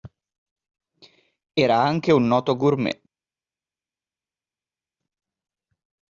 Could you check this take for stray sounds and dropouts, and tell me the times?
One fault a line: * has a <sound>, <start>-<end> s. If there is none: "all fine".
all fine